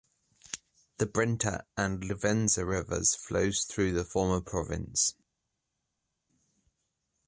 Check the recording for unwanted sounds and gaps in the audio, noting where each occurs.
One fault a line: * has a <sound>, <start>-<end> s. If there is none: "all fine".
all fine